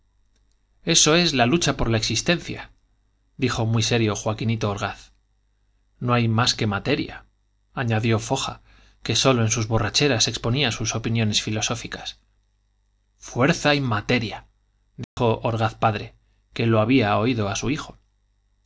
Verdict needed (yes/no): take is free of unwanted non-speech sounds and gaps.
no